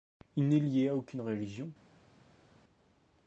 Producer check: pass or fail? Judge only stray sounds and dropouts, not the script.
pass